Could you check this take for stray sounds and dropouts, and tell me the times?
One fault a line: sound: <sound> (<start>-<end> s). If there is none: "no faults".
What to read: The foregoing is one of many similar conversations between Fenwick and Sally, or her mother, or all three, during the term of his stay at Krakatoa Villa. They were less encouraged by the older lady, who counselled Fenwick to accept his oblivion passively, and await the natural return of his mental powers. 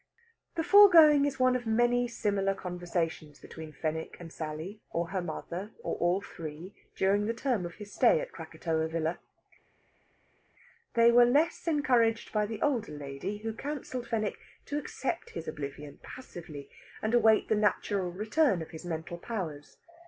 no faults